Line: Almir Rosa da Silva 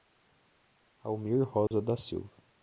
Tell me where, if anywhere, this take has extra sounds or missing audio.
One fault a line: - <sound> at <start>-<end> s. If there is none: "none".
- dropout at 1.7-1.7 s